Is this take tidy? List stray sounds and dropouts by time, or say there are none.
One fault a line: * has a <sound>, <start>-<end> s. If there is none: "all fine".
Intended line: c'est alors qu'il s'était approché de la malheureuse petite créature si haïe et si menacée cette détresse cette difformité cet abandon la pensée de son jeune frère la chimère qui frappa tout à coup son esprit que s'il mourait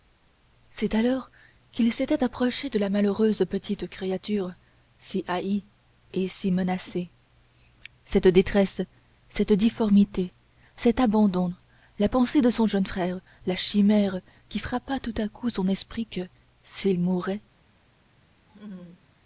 * has a laugh, 18.5-19.1 s